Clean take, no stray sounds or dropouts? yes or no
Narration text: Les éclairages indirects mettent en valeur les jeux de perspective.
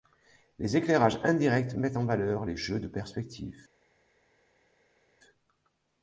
yes